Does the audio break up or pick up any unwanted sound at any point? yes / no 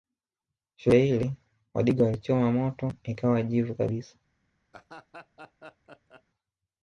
yes